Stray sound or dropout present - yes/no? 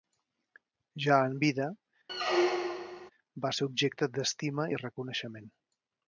yes